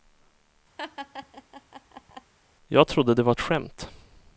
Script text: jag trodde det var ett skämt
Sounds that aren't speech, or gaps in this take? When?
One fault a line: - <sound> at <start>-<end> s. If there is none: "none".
- laugh at 0.8-2.3 s